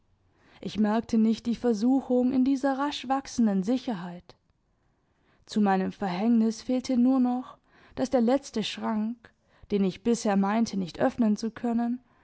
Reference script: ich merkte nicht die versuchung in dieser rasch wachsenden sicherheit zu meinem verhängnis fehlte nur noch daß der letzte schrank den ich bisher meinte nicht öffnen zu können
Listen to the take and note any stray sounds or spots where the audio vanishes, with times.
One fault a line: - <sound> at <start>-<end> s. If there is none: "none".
none